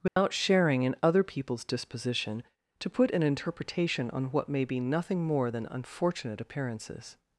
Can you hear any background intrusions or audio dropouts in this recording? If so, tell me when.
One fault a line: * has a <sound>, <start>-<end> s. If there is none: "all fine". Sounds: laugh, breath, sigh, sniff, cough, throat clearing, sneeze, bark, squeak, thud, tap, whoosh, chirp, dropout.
* has a dropout, 0.1-0.2 s